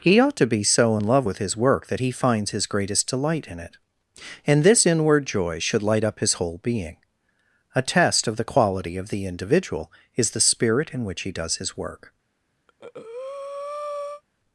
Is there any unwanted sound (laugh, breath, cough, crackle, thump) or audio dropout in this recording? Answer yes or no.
yes